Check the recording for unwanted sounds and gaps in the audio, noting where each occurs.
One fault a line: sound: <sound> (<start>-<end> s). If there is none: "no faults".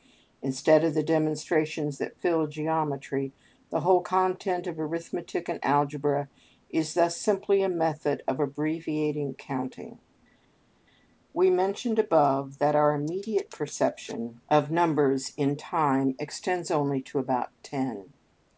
no faults